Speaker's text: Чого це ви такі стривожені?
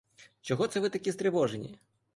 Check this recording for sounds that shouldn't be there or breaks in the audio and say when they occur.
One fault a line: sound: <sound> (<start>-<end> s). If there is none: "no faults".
no faults